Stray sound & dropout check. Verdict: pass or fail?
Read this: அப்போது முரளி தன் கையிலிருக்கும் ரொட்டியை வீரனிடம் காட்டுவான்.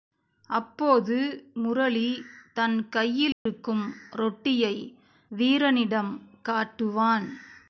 fail